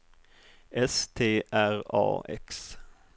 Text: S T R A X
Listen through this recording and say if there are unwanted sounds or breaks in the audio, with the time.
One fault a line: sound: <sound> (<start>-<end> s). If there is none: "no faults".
no faults